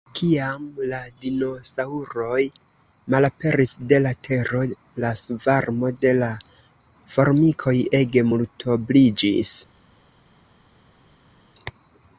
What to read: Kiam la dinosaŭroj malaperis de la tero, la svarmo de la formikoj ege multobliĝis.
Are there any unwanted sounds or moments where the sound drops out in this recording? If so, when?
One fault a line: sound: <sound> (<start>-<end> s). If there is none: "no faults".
no faults